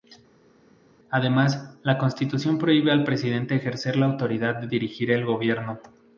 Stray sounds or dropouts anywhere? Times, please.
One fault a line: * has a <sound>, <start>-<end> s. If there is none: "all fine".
all fine